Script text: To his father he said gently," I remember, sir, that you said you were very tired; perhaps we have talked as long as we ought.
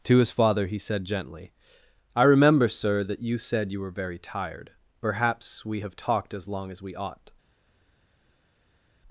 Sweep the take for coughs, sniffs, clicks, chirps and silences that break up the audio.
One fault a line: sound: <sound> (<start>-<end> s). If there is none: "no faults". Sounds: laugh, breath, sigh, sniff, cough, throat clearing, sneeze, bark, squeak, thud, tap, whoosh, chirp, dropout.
no faults